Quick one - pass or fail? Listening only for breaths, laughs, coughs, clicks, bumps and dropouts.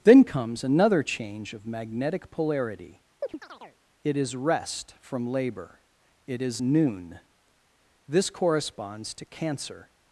fail